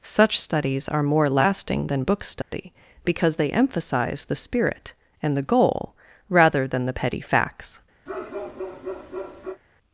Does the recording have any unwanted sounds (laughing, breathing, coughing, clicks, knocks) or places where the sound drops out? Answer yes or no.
yes